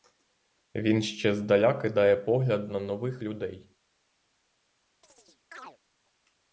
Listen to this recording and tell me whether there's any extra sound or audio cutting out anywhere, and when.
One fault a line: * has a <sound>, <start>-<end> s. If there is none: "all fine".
* has a chirp, 5.0-5.8 s